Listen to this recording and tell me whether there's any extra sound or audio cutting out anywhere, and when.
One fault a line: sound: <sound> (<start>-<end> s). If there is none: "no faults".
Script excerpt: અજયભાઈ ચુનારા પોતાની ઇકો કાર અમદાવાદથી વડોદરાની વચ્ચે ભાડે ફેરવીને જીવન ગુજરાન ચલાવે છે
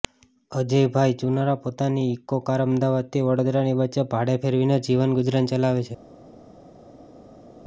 no faults